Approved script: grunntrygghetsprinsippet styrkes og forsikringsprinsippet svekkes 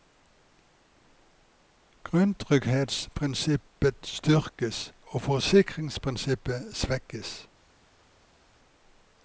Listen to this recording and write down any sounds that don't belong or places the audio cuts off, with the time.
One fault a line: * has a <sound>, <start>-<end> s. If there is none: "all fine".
all fine